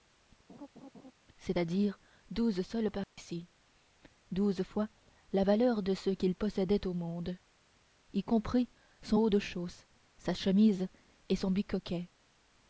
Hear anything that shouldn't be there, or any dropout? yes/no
yes